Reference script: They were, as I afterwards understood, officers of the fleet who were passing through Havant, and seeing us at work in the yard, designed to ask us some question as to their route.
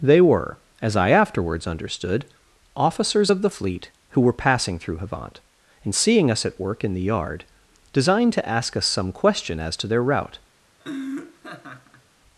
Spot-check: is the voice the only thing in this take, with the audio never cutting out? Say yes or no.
no